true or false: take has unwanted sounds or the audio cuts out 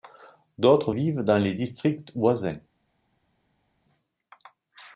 false